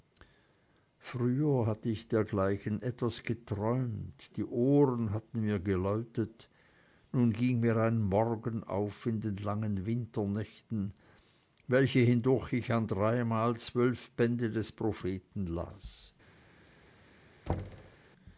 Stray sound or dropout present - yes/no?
yes